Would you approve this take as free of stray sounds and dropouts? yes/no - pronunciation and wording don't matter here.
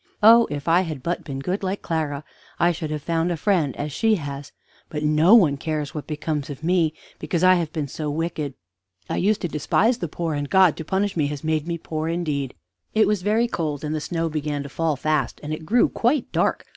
yes